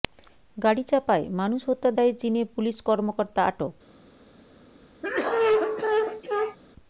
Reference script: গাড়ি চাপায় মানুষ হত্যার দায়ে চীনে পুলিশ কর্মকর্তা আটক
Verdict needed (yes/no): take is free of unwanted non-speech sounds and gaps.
no